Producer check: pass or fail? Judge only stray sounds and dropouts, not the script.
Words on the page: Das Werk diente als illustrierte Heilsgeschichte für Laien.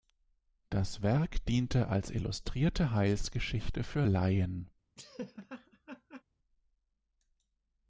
fail